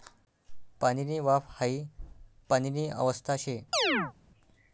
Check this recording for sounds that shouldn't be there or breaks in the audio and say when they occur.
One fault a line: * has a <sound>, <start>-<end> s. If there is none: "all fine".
* has a chirp, 3.7-4.1 s